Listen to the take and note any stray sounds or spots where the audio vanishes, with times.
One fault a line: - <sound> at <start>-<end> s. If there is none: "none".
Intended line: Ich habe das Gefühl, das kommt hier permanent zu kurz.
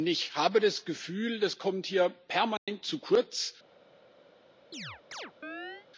- dropout at 2.6-2.7 s
- chirp at 4.7-5.9 s